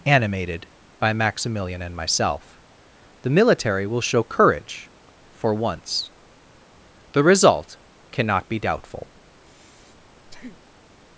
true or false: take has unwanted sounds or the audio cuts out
true